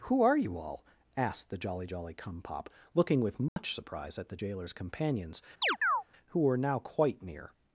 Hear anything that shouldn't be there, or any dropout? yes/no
yes